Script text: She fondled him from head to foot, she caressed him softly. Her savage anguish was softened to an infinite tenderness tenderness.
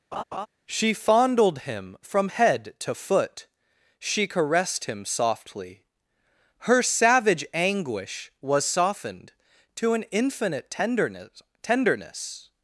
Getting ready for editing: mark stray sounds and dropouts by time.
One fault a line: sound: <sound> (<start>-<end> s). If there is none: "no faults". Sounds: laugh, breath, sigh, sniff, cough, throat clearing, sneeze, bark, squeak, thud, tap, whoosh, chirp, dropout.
sound: laugh (0.1-0.5 s)